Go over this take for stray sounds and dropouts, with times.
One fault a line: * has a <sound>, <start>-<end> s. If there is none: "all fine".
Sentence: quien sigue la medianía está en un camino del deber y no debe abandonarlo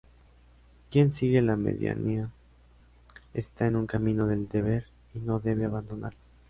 all fine